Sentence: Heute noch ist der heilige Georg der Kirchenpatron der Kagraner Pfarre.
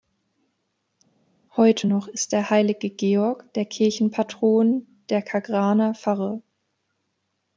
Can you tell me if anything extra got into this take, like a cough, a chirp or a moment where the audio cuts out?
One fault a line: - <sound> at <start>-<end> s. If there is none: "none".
none